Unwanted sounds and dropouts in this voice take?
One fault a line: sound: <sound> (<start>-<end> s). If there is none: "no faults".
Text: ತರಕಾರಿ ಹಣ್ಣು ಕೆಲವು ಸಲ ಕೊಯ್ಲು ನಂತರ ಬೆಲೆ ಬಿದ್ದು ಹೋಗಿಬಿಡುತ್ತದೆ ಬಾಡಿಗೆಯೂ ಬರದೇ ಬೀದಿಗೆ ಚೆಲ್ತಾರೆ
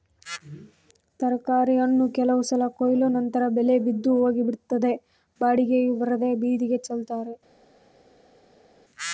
no faults